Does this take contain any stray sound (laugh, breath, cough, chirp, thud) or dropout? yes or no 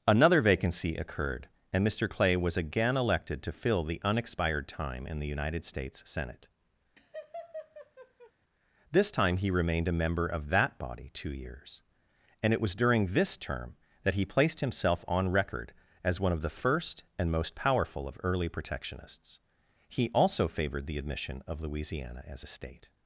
yes